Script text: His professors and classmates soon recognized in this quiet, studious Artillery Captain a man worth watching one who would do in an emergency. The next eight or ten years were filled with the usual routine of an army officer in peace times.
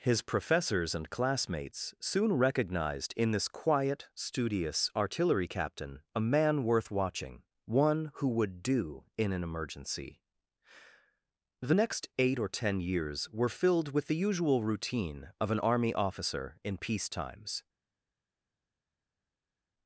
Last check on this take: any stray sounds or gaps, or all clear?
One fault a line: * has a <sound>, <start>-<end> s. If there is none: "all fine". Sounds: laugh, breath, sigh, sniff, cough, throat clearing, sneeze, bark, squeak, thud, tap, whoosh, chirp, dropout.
all fine